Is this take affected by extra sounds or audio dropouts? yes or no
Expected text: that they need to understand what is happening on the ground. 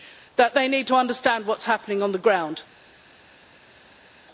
no